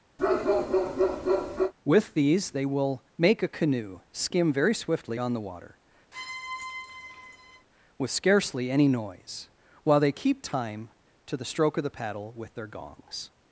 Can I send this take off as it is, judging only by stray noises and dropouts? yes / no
no